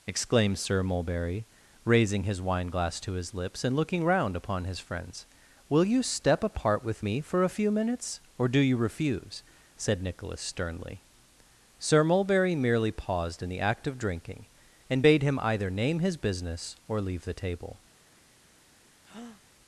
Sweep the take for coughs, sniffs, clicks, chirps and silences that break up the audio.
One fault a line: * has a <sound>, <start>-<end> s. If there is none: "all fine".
* has a breath, 19.0-19.4 s